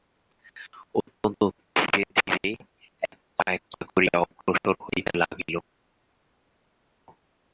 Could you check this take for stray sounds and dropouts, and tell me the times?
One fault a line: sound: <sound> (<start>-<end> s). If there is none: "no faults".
no faults